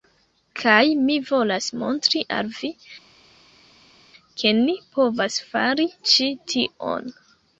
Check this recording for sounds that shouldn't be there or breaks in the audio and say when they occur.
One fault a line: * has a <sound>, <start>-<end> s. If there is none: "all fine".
all fine